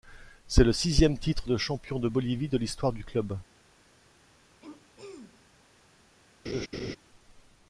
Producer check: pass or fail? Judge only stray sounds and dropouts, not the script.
fail